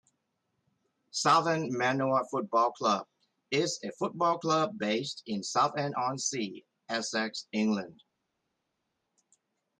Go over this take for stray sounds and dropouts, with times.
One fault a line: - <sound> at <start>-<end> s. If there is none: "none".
none